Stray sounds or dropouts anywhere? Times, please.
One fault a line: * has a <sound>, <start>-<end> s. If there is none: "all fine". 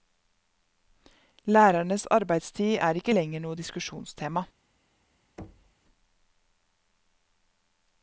* has a thud, 5.4-5.8 s